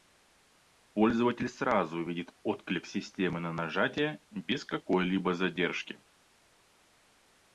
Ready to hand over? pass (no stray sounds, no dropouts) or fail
pass